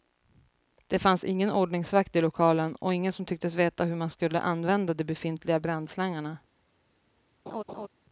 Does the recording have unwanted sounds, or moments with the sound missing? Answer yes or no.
yes